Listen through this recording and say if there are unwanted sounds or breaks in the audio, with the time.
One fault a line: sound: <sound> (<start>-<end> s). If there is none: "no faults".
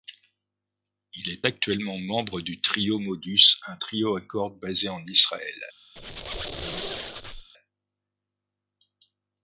sound: squeak (6.0-7.5 s)